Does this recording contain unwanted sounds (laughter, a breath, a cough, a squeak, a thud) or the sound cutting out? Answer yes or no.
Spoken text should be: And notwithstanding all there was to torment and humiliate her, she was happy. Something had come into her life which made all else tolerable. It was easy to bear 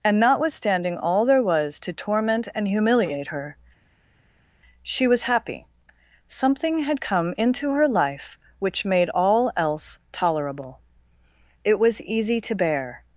no